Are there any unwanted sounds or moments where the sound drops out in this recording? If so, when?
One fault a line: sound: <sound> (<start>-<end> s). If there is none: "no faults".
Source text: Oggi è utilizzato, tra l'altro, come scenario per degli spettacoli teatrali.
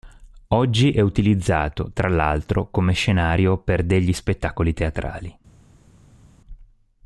no faults